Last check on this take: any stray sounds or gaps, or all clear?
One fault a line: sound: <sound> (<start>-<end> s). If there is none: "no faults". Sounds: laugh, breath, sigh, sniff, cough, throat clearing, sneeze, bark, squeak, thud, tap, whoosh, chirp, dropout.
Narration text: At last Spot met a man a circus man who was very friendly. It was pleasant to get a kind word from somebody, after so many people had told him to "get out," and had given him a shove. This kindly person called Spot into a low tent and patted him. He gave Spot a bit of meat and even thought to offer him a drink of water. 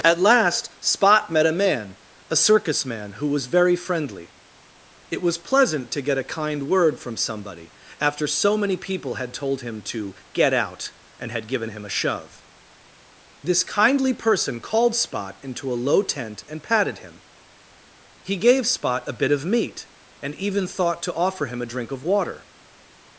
no faults